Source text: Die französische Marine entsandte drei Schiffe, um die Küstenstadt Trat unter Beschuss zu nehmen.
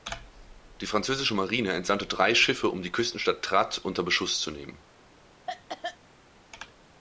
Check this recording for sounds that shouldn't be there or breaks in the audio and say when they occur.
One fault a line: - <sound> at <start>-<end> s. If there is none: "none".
- cough at 5.5-6.0 s